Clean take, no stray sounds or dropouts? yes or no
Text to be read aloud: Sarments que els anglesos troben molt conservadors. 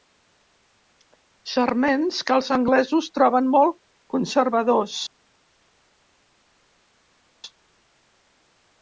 yes